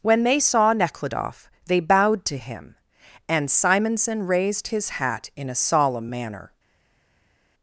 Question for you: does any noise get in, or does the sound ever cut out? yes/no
no